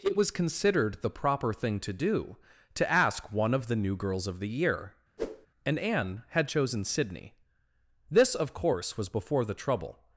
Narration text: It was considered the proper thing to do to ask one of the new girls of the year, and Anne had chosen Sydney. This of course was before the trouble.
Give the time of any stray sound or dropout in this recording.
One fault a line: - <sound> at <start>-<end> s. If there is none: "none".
- whoosh at 5.2-5.5 s